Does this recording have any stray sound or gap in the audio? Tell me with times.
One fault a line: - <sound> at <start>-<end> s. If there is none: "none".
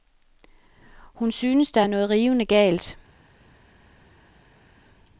none